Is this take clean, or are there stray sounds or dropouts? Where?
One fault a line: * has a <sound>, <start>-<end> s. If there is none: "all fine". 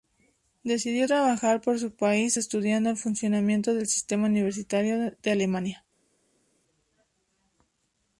all fine